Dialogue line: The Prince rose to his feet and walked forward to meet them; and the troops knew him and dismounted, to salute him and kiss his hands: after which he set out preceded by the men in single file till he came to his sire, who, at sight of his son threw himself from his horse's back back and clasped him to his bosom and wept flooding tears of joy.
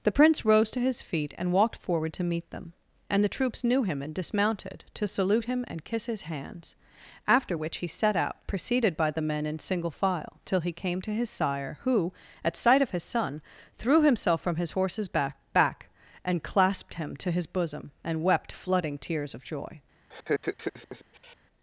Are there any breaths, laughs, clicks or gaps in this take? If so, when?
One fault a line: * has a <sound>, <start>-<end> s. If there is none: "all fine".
* has a laugh, 20.1-21.4 s